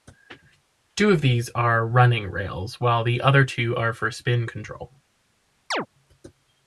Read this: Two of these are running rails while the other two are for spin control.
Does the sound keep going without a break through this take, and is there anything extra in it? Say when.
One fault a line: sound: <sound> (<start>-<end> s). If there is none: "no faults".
sound: chirp (5.7-5.9 s)